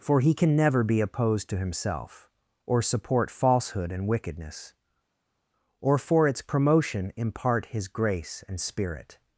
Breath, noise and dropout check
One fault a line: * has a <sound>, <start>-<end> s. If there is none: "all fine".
all fine